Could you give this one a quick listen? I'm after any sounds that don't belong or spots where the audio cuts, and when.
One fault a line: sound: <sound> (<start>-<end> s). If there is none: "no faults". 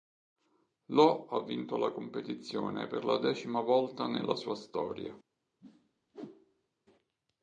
sound: whoosh (5.6-6.7 s)